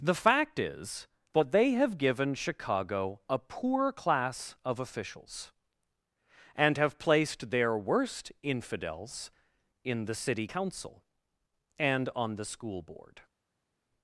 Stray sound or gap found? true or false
false